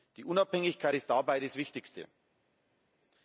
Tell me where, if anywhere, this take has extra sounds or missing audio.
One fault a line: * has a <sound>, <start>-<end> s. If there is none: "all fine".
all fine